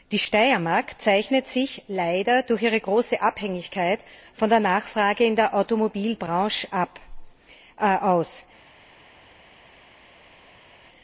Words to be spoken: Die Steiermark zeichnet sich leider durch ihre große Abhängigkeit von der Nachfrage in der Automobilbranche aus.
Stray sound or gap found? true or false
false